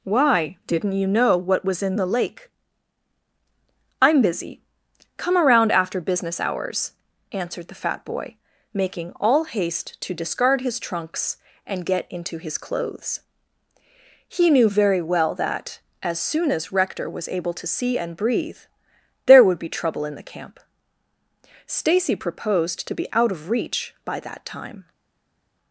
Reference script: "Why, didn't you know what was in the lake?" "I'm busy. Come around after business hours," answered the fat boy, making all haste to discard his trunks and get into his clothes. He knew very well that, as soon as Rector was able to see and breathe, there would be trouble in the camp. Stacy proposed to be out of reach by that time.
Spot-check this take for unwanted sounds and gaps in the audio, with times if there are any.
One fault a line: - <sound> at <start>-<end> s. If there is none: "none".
none